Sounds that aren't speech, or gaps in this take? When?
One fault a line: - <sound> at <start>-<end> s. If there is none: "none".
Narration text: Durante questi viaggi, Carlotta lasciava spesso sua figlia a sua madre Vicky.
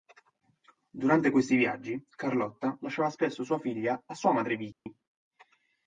- dropout at 4.7-4.9 s